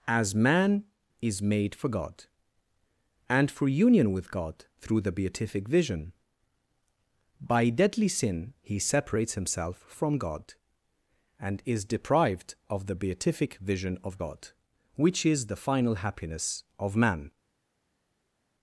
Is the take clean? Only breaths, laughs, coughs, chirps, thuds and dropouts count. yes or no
yes